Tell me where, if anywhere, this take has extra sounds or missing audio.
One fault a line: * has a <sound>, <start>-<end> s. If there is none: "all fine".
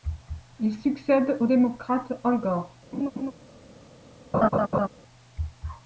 * has a laugh, 2.9-3.3 s
* has a laugh, 4.3-4.9 s